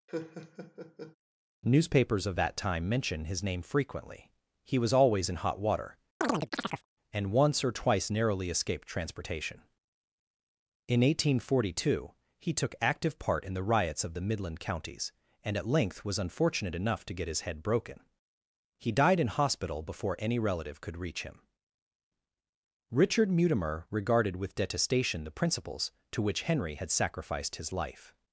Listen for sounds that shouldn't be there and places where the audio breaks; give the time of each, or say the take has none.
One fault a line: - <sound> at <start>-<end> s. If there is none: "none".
- laugh at 0.1-1.2 s
- chirp at 6.2-6.9 s